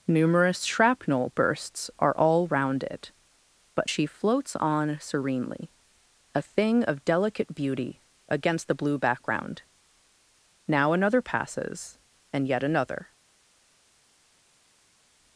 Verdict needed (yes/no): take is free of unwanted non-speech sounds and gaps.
yes